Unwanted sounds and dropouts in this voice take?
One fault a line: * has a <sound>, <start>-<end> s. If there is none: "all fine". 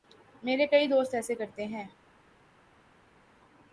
all fine